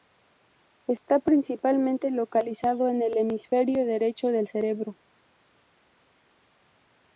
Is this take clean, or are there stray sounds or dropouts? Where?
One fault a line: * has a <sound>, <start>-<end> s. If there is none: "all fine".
all fine